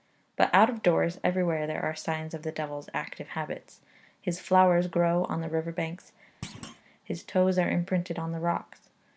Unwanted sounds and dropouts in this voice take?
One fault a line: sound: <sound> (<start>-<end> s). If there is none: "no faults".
sound: thud (6.4-6.8 s)